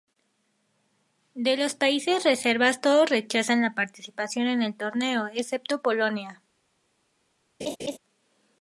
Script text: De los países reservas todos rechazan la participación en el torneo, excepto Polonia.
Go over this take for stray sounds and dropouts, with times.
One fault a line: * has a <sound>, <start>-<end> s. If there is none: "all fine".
* has a laugh, 7.6-8.0 s